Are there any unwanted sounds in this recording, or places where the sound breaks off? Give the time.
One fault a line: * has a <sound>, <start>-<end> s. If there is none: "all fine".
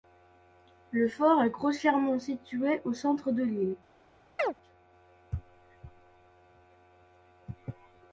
* has a chirp, 4.4-4.5 s